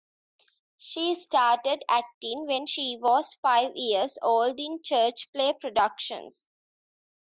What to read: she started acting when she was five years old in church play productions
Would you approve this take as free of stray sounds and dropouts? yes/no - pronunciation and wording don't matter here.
yes